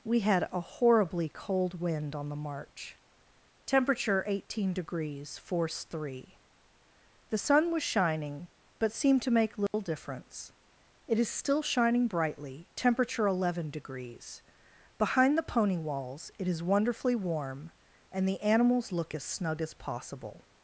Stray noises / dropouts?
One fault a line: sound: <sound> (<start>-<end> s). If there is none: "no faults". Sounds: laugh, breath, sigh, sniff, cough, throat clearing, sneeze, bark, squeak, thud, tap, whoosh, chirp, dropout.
sound: dropout (9.7-9.7 s)